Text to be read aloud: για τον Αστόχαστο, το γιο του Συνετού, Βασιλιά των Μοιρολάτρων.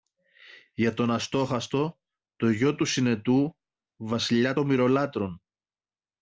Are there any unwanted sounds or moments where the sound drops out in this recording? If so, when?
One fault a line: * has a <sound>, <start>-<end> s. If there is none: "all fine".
all fine